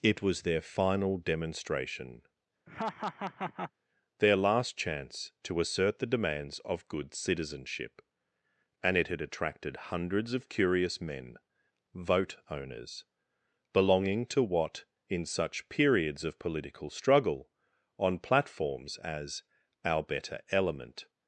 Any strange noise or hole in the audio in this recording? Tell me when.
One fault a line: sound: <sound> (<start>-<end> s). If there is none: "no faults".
sound: laugh (2.7-3.7 s)